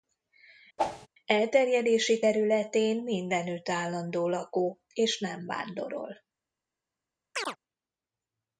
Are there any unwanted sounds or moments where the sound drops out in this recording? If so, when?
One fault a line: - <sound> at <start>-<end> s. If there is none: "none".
- whoosh at 0.8-1.1 s
- chirp at 7.3-7.6 s